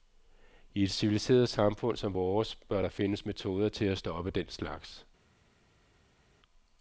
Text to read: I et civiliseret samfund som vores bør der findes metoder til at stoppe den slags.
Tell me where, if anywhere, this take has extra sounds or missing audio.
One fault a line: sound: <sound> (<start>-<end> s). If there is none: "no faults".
no faults